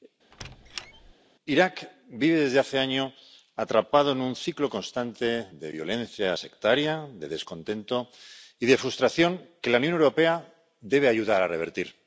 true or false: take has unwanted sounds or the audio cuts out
true